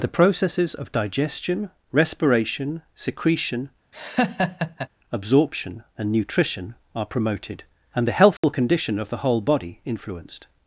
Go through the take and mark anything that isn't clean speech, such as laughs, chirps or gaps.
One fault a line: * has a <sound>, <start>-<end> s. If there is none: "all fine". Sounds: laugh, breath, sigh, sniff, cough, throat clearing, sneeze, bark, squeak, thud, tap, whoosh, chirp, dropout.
* has a laugh, 3.9-4.9 s
* has a dropout, 8.4-8.4 s